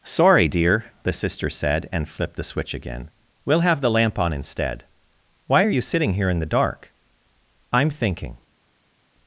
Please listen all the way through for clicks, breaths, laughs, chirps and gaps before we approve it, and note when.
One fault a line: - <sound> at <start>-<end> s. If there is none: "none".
none